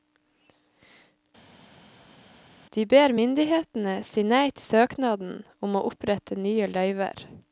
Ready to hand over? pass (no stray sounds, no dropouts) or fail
pass